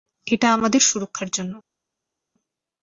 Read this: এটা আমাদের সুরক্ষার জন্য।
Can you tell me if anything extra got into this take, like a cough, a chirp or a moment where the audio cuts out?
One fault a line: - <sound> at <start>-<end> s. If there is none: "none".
none